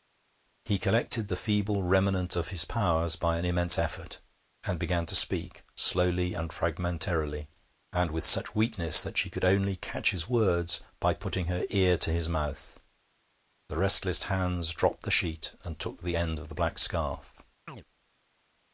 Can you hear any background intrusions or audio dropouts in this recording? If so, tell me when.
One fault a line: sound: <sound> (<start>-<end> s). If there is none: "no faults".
sound: chirp (17.7-17.8 s)